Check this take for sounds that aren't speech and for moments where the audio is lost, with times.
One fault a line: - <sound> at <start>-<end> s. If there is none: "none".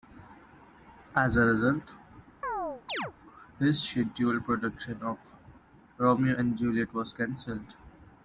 - chirp at 2.4-3.1 s